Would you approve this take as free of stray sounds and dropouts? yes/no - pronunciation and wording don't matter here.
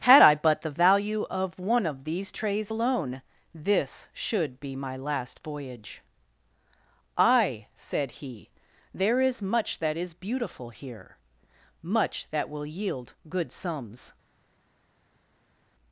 yes